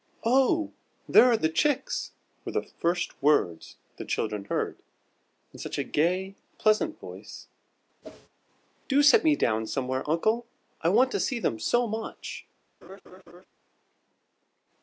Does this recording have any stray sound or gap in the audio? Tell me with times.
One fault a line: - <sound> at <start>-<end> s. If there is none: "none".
- whoosh at 8.0-8.3 s
- laugh at 12.8-13.5 s